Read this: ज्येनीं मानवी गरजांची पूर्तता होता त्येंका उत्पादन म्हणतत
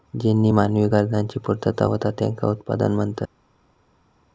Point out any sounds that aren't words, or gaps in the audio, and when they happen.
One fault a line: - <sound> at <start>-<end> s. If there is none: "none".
none